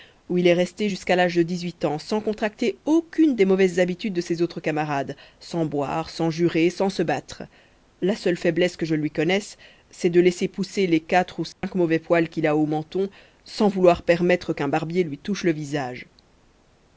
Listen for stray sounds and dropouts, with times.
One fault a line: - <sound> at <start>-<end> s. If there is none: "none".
- dropout at 11.5-11.6 s